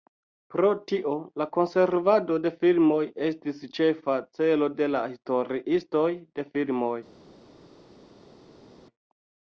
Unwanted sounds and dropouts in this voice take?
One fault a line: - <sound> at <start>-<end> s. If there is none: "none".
none